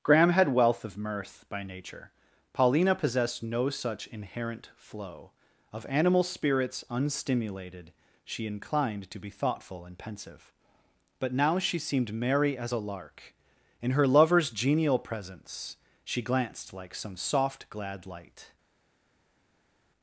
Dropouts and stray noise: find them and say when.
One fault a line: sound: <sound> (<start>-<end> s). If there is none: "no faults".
no faults